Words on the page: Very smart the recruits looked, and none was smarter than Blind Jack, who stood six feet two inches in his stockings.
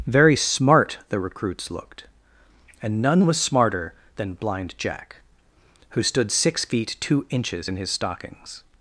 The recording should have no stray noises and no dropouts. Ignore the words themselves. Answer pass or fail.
pass